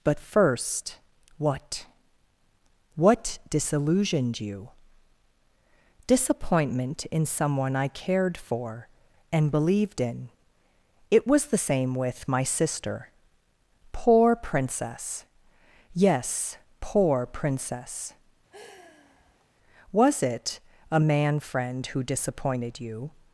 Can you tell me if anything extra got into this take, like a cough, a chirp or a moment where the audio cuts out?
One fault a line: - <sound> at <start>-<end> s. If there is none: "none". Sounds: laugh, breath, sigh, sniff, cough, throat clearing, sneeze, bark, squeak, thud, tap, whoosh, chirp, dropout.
- sigh at 18.5-19.5 s